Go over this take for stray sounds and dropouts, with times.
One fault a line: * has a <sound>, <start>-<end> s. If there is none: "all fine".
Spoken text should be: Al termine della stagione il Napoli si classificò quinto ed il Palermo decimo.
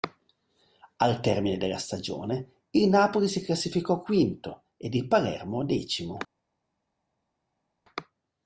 all fine